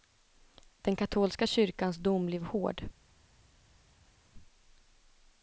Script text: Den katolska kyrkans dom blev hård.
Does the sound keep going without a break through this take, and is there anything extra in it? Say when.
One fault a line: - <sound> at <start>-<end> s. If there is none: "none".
none